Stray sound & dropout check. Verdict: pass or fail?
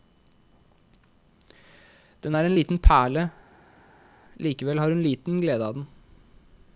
pass